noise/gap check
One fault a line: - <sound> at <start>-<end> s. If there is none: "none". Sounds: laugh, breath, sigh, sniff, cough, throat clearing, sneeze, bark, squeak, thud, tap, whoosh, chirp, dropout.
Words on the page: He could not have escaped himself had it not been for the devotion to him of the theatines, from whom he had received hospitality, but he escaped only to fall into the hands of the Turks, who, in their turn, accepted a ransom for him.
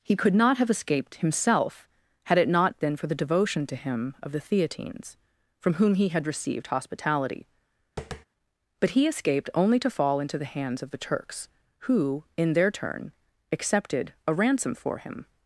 - tap at 8.0-8.3 s